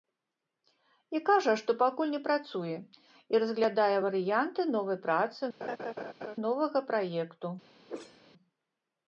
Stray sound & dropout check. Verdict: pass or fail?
fail